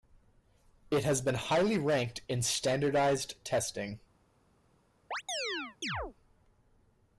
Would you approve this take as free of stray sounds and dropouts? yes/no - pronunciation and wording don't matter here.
no